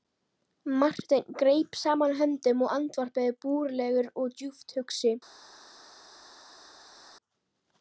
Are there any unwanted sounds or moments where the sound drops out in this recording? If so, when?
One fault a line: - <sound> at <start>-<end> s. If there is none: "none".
none